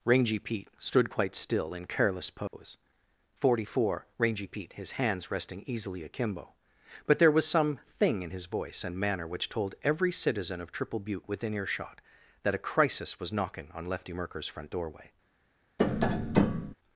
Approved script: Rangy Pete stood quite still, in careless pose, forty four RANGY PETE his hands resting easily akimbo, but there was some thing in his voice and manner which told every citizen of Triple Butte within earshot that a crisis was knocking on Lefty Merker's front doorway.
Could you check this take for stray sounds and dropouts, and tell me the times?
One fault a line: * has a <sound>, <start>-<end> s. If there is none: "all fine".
* has a dropout, 2.5-2.5 s
* has a tap, 15.8-16.7 s